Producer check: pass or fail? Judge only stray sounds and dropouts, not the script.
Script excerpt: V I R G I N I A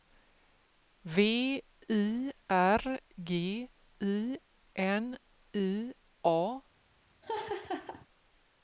fail